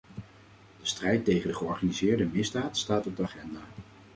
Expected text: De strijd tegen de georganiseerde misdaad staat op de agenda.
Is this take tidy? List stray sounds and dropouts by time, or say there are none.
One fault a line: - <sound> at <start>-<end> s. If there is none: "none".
none